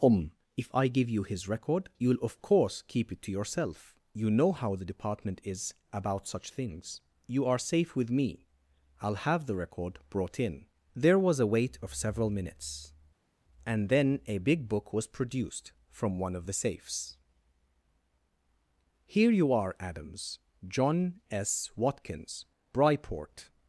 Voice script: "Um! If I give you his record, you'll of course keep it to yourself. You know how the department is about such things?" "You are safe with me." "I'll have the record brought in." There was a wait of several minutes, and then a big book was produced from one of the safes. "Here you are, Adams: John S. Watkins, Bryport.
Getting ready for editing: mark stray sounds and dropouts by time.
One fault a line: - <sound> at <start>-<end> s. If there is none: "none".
none